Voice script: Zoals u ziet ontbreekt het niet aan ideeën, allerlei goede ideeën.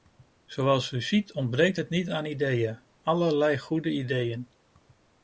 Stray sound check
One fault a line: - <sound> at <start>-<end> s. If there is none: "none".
none